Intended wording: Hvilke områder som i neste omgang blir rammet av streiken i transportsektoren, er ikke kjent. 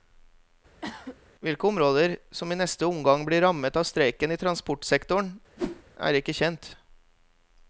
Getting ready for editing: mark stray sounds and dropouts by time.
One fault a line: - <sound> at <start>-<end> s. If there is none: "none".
- cough at 0.8-1.2 s
- whoosh at 5.6-5.8 s